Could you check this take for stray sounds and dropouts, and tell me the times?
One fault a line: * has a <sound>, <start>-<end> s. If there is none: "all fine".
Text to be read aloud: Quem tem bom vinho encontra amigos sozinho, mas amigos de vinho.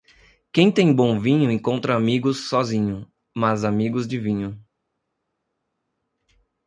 all fine